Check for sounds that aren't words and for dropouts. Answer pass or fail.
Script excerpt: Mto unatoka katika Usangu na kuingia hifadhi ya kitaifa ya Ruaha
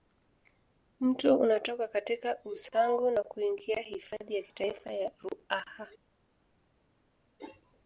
pass